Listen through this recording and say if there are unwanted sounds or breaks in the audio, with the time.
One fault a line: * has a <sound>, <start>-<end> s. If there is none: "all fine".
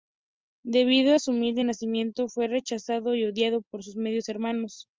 all fine